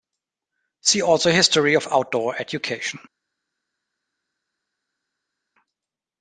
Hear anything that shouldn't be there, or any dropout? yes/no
no